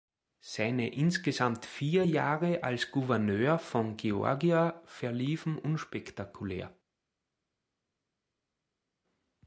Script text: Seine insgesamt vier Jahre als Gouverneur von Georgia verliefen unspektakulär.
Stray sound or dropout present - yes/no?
no